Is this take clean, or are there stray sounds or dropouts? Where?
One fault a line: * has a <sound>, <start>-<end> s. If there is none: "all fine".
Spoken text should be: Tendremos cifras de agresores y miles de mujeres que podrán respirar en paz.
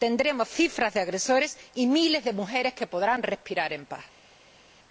all fine